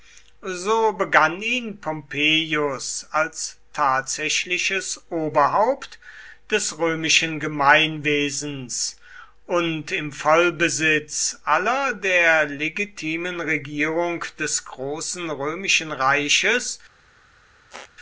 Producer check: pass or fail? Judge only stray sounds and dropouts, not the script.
fail